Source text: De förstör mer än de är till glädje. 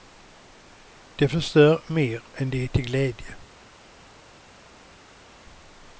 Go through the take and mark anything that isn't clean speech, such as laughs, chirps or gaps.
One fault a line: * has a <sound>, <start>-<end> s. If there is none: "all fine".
all fine